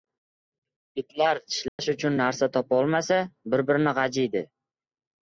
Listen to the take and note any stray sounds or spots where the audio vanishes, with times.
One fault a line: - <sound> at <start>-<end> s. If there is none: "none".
- dropout at 1.7-1.8 s